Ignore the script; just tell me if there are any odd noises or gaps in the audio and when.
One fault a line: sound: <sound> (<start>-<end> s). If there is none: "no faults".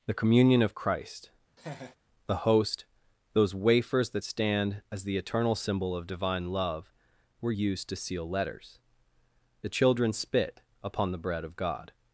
sound: laugh (1.6-2.0 s)